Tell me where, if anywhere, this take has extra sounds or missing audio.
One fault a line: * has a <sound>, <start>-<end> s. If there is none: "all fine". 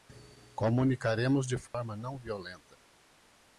* has a dropout, 1.7-1.7 s